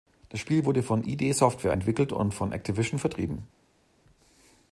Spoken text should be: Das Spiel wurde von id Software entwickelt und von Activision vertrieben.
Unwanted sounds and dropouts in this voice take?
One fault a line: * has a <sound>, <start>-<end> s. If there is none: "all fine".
all fine